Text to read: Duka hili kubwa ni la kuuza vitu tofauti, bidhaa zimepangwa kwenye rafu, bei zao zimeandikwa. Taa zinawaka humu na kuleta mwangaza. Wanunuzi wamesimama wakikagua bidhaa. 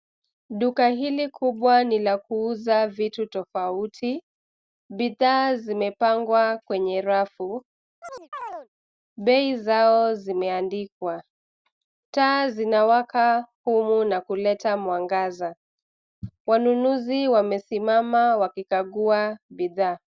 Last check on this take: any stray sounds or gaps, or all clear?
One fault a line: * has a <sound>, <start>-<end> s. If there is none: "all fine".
* has a chirp, 8.0-8.7 s